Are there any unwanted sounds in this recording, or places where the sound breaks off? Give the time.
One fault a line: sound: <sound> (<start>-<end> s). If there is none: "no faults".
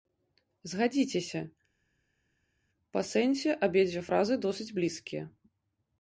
no faults